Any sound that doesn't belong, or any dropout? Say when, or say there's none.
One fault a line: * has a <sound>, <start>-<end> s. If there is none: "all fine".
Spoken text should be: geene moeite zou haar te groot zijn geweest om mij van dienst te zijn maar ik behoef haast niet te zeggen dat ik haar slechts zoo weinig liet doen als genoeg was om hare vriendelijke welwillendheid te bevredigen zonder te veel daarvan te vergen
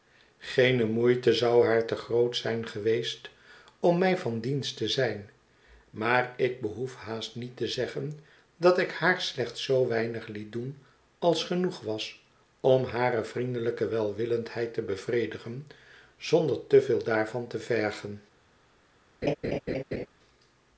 * has a laugh, 19.2-20.1 s